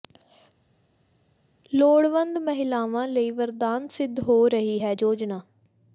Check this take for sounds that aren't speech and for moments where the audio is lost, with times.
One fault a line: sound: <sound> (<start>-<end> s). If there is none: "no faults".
no faults